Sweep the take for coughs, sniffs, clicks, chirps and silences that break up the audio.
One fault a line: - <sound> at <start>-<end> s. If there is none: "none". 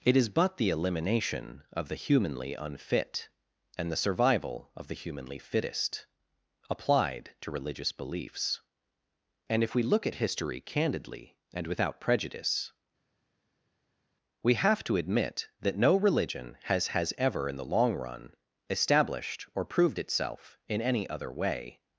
none